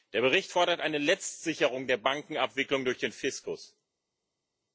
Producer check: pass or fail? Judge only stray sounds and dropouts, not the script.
pass